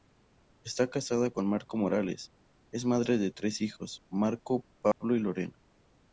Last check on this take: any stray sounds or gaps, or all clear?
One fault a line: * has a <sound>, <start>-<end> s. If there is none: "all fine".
* has a dropout, 4.9-5.0 s